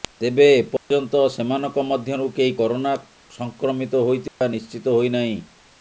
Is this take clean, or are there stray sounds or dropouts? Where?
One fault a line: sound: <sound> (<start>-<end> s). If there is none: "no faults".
sound: dropout (0.8-0.9 s)
sound: dropout (4.3-4.4 s)